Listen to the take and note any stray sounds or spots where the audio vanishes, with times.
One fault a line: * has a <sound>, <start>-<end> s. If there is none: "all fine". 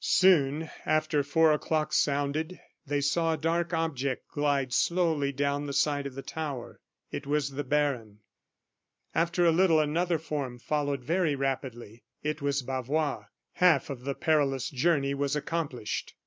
all fine